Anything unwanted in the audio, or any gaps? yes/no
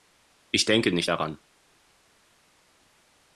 no